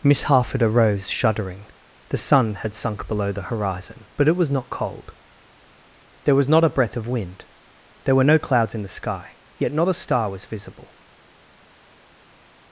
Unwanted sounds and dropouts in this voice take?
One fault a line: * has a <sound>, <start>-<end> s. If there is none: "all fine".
all fine